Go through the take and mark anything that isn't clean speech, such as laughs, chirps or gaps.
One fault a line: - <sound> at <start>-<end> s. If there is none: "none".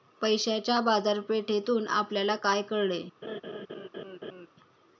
- laugh at 3.2-4.5 s